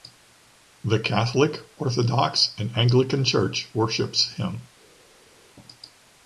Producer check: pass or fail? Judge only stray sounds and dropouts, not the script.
pass